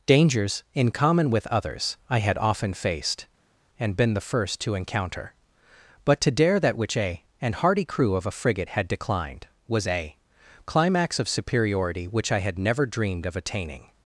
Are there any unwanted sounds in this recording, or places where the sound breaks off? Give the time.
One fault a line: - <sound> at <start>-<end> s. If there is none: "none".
none